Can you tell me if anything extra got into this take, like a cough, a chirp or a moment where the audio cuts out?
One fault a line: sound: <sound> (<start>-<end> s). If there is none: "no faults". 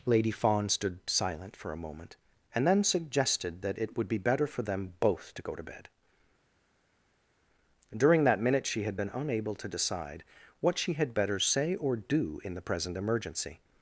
no faults